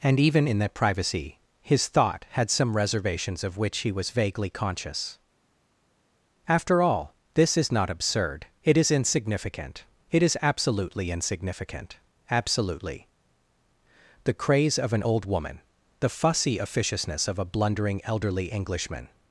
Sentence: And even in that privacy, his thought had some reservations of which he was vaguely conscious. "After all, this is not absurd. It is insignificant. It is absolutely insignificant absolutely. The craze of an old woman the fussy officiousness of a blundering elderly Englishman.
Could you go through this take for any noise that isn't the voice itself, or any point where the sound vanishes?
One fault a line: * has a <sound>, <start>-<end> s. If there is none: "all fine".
all fine